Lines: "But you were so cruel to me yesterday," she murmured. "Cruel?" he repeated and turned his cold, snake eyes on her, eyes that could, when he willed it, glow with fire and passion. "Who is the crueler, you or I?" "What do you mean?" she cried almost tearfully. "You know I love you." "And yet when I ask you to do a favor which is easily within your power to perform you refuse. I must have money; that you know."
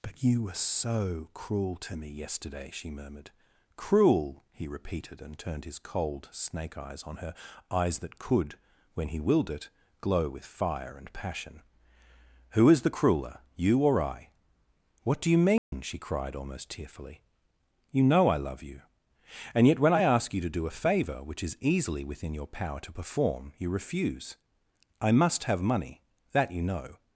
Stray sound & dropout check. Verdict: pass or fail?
fail